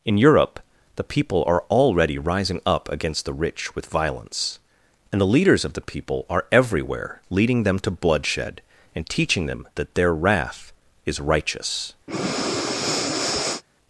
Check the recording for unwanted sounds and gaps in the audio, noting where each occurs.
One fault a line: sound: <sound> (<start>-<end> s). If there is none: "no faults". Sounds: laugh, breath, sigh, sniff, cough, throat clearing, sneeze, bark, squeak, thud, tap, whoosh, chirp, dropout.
sound: breath (12.1-13.6 s)